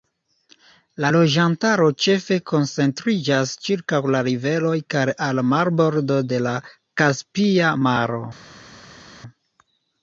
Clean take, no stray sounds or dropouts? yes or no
yes